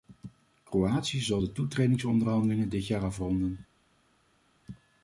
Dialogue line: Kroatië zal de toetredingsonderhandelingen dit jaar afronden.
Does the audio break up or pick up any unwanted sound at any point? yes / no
no